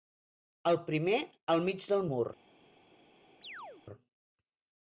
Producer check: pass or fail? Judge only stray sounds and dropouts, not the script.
fail